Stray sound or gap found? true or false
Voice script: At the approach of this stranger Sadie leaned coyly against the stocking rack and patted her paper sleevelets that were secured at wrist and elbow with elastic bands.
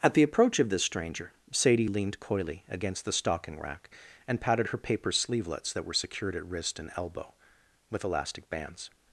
false